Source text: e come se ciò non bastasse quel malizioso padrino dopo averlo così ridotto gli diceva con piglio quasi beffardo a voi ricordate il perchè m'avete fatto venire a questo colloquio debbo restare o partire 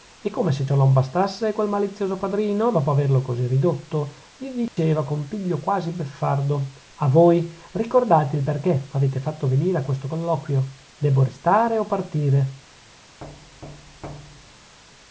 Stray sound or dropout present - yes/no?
yes